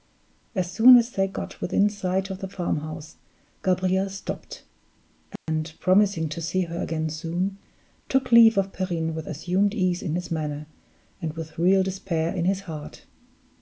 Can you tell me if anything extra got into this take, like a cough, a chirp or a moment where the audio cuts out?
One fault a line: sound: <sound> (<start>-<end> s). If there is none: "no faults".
sound: dropout (5.4-5.5 s)